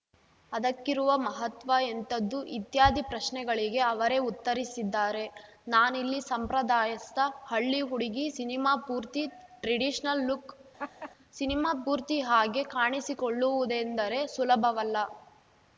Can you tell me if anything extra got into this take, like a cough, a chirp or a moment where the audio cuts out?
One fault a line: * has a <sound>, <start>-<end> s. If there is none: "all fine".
* has a laugh, 10.8-11.1 s